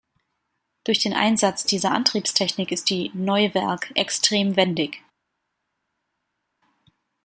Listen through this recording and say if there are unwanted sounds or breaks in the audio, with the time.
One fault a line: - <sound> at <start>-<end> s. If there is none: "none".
none